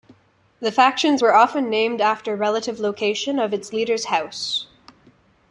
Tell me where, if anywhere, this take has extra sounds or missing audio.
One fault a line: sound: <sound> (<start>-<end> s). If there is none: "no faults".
no faults